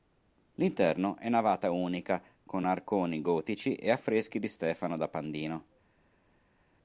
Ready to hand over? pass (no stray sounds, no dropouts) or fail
pass